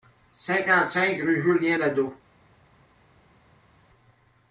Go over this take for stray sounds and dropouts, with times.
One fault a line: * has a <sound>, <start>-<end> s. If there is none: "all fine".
all fine